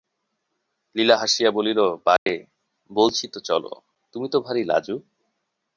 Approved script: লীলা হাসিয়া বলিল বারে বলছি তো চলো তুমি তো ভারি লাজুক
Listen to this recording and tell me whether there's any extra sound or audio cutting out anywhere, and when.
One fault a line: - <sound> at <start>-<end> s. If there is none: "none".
- dropout at 2.2-2.3 s